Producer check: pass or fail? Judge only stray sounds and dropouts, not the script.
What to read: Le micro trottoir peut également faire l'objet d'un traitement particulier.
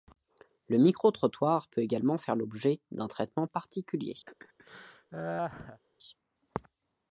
fail